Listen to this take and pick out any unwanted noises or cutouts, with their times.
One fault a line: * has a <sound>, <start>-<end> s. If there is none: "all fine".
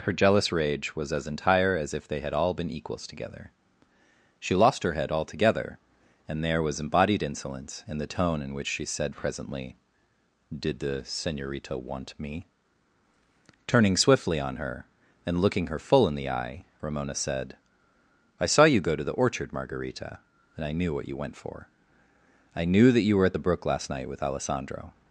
all fine